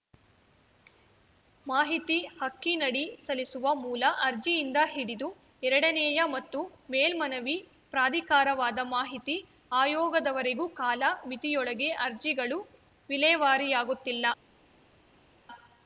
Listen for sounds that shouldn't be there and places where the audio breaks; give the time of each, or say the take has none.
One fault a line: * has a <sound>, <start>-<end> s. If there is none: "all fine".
all fine